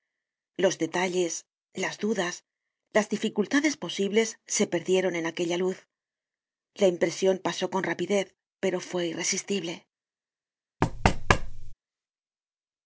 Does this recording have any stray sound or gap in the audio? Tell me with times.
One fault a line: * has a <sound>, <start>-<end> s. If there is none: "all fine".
* has a thud, 10.8-11.7 s